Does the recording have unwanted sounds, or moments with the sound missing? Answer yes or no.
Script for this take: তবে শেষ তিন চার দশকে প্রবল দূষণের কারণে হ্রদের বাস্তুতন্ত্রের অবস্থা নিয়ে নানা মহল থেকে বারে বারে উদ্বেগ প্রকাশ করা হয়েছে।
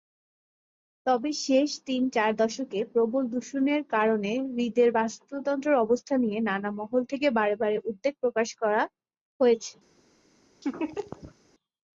yes